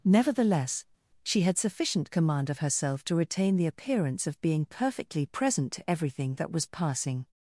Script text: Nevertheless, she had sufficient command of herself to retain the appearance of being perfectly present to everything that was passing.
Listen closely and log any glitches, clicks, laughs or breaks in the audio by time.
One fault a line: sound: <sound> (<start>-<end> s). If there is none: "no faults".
no faults